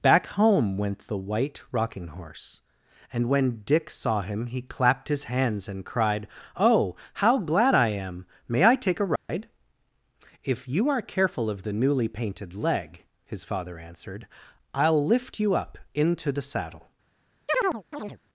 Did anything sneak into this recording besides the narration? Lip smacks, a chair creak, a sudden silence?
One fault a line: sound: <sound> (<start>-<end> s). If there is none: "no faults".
sound: dropout (9.2-9.3 s)
sound: chirp (17.5-18.2 s)